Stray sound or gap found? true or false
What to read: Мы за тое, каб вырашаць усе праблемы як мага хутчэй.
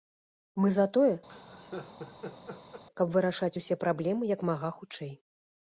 true